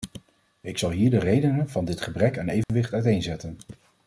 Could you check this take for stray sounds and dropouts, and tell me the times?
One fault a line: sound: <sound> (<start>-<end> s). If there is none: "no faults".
sound: dropout (2.6-2.7 s)